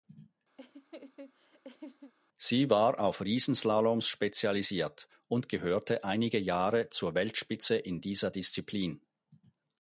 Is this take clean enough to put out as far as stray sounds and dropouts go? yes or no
no